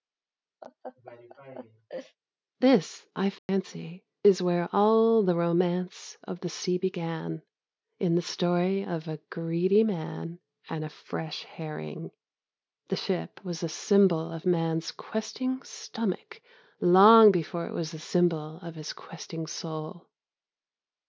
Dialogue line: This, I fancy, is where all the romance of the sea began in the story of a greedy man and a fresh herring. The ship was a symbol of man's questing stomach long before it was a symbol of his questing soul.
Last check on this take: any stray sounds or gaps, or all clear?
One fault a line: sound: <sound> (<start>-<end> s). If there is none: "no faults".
sound: laugh (0.6-2.2 s)
sound: dropout (3.4-3.5 s)